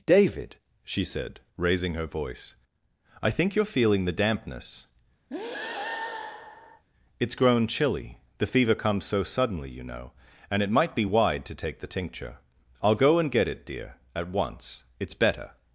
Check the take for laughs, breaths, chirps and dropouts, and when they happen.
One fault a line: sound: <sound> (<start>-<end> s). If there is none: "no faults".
sound: breath (5.3-6.8 s)